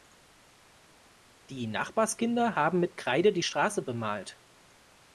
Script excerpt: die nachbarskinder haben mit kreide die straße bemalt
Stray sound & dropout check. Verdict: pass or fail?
pass